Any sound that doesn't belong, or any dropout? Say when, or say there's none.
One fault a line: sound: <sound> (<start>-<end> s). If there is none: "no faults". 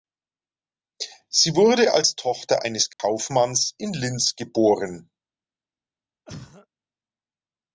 sound: dropout (2.9-3.0 s)
sound: cough (6.3-6.7 s)